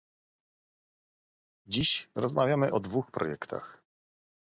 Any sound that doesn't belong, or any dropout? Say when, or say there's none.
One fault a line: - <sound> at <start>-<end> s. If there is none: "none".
none